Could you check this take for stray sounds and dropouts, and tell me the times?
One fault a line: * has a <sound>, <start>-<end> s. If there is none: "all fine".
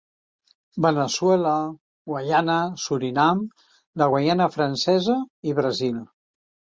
all fine